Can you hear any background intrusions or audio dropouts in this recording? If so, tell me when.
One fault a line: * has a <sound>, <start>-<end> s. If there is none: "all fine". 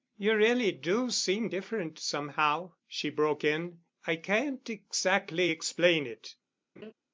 * has a laugh, 6.8-6.9 s